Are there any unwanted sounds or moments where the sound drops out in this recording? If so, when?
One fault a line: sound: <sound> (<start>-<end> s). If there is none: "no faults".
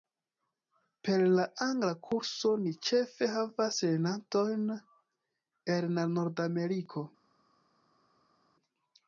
no faults